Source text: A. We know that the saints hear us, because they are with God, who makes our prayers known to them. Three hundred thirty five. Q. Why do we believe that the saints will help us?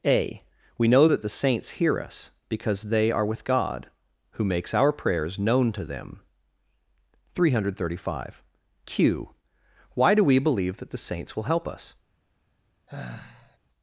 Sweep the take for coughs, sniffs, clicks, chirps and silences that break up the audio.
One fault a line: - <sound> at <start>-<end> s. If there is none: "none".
- sigh at 12.9-13.6 s